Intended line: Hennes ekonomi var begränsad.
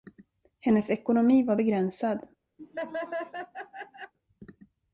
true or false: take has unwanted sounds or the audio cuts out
true